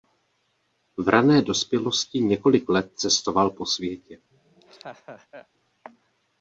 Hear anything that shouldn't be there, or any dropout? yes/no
yes